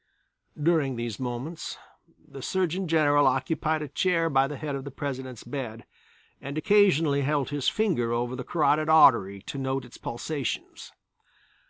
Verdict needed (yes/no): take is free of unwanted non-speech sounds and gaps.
yes